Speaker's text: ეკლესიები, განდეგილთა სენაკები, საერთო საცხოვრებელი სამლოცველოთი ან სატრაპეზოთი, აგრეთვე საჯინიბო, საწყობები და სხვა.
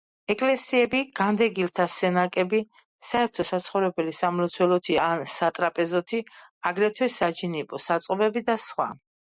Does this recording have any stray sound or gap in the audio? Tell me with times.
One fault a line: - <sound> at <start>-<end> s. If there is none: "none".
none